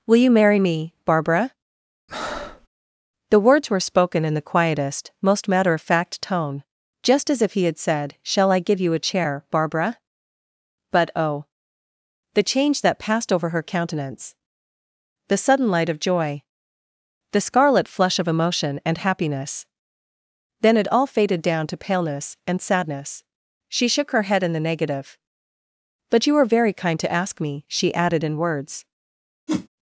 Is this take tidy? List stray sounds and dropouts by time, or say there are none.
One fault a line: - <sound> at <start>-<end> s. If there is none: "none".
- breath at 2.1-2.7 s
- whoosh at 29.5-29.7 s